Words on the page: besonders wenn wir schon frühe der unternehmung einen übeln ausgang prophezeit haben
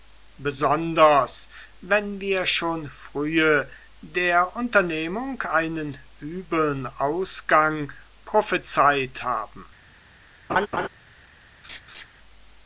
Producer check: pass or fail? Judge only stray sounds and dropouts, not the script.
fail